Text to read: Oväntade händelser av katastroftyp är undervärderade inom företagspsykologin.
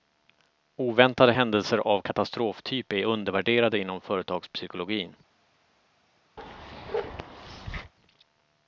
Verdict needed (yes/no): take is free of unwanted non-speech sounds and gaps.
no